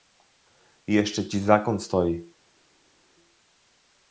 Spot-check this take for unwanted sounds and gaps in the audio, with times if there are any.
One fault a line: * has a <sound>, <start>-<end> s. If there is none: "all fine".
all fine